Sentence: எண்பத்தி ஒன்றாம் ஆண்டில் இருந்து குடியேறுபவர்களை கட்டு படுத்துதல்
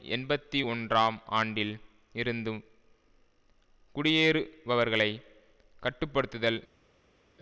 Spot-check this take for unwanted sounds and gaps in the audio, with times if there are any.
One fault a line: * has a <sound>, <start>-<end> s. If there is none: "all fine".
all fine